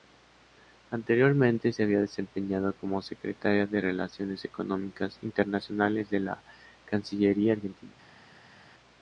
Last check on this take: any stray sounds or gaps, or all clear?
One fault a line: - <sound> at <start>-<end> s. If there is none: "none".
none